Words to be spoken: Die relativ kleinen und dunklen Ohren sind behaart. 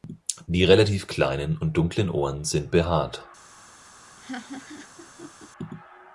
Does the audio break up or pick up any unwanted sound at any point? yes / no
yes